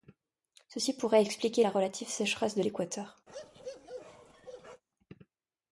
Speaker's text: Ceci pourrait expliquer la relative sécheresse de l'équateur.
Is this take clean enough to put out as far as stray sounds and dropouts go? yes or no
no